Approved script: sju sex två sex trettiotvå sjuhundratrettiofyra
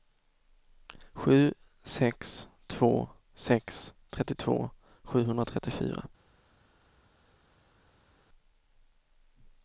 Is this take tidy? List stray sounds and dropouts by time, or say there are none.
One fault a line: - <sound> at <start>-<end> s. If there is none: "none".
none